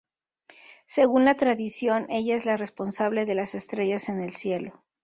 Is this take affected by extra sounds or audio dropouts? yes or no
no